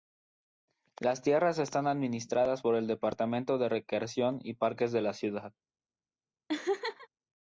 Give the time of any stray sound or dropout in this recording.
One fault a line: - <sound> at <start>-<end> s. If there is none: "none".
- laugh at 6.5-7.1 s